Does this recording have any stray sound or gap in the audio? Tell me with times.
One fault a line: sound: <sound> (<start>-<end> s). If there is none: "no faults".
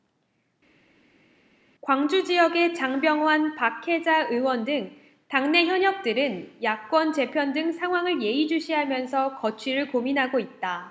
no faults